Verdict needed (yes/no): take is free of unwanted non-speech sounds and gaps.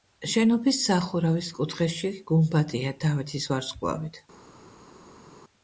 yes